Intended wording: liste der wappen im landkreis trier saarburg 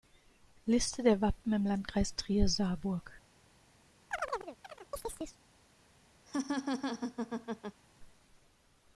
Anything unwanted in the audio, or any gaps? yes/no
yes